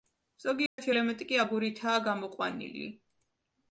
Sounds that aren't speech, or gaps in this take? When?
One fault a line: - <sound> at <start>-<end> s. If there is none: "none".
- dropout at 0.7-0.8 s